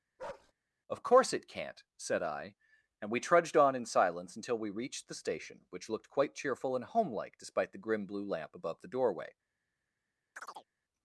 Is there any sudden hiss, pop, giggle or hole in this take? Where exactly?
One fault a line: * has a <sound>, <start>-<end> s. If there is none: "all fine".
* has a bark, 0.2-0.5 s
* has a chirp, 10.3-10.7 s